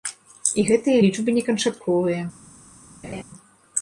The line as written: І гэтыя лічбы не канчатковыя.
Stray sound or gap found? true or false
true